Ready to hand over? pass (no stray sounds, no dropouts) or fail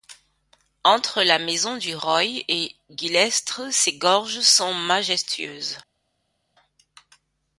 pass